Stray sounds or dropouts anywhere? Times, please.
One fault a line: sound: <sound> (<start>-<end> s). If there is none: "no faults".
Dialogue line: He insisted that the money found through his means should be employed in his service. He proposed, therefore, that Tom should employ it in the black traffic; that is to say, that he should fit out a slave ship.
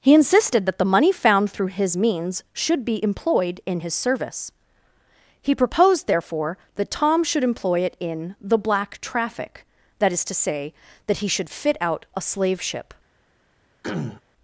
sound: throat clearing (13.8-14.2 s)